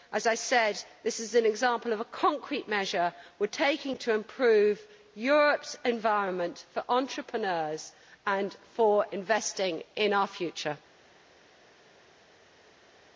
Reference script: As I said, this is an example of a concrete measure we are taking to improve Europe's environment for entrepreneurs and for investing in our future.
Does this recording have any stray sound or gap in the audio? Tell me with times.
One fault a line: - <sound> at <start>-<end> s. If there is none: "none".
none